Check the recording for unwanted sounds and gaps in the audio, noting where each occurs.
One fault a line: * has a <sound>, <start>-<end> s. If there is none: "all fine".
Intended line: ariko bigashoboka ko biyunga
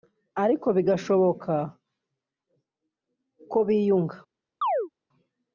* has a chirp, 4.6-4.9 s